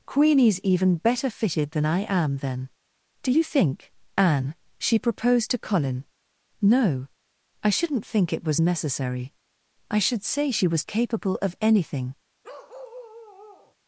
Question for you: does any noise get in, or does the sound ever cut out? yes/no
yes